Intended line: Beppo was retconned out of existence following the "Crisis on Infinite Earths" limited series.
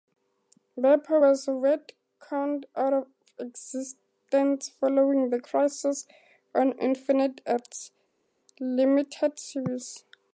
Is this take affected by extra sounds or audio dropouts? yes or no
no